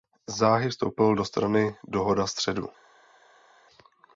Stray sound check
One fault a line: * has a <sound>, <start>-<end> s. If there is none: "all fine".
all fine